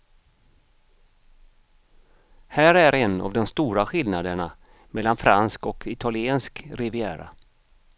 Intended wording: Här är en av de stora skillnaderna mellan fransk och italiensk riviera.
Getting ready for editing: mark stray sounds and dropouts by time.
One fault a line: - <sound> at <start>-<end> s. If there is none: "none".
none